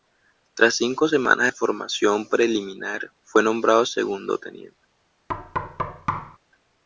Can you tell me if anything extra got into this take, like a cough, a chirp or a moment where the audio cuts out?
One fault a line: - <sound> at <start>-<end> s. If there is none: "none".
- thud at 5.3-6.4 s